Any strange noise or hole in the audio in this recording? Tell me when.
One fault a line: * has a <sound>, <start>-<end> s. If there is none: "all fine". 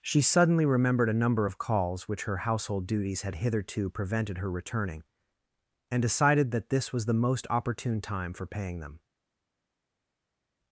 all fine